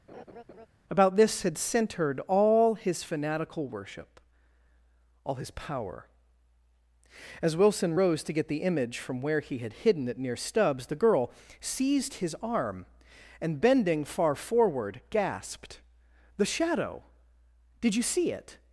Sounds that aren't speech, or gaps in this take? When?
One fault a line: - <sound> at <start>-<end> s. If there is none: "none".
- laugh at 0.1-0.7 s